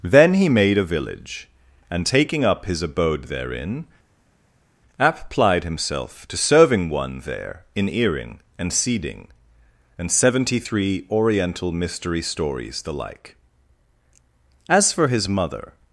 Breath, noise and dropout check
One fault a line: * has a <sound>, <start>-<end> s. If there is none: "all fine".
all fine